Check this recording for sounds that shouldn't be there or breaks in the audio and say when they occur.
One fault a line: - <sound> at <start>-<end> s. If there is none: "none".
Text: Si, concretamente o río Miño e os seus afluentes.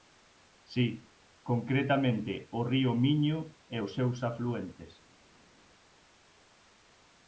none